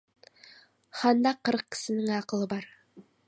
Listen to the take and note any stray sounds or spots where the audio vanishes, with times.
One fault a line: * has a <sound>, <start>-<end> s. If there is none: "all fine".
all fine